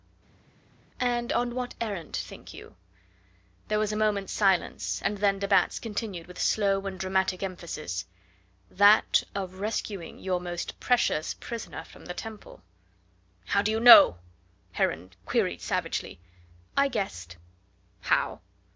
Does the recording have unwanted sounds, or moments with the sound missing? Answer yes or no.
no